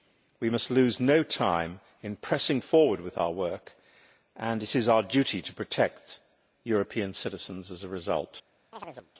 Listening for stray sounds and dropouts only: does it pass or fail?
fail